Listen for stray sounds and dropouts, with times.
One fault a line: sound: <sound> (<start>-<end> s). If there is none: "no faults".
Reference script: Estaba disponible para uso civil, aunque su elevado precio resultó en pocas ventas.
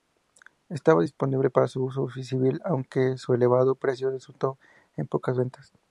no faults